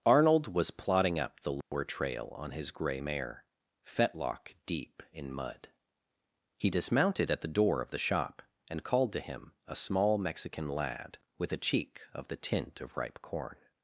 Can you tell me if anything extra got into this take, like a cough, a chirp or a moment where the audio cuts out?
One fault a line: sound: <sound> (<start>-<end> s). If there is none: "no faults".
sound: dropout (1.6-1.7 s)